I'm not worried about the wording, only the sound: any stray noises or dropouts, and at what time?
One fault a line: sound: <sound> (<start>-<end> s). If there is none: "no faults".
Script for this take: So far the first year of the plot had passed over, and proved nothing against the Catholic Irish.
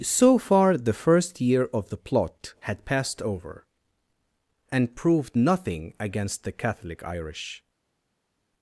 no faults